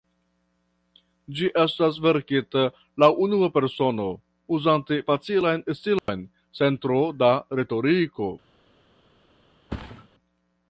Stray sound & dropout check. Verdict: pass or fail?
fail